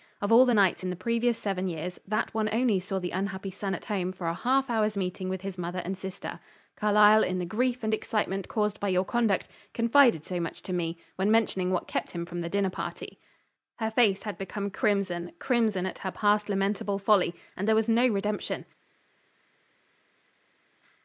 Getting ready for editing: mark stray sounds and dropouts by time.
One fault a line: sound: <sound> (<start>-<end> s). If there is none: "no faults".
no faults